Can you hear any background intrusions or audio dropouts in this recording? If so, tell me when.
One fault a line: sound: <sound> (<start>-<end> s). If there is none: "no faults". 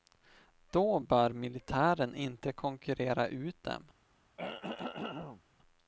sound: throat clearing (4.4-5.4 s)